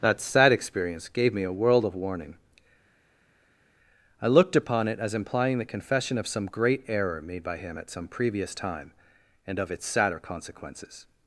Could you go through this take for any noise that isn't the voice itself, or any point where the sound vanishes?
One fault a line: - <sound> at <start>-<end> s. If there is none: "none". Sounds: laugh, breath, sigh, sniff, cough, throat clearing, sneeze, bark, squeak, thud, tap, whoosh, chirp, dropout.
none